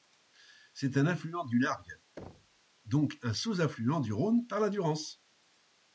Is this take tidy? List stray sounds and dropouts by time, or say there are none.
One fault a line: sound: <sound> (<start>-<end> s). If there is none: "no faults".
sound: thud (2.2-2.6 s)